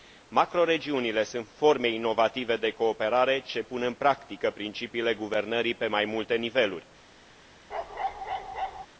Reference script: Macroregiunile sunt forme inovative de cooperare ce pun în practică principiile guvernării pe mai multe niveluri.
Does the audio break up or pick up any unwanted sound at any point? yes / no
yes